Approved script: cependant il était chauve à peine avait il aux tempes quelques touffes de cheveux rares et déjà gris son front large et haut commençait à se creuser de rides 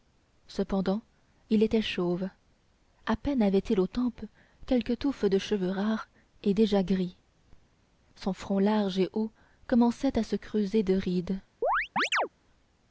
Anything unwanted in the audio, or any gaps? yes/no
yes